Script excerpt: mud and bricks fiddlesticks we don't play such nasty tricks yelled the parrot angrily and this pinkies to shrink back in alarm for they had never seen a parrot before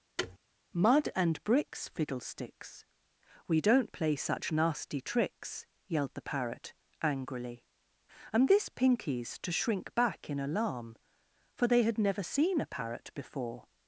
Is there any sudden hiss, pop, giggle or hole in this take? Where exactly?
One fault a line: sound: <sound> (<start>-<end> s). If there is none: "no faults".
sound: thud (0.2-0.4 s)